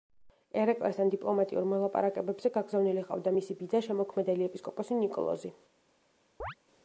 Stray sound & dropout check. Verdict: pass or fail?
fail